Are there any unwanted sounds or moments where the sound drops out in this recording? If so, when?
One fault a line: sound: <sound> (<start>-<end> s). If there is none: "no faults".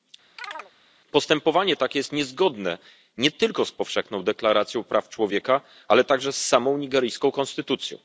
sound: chirp (0.4-0.7 s)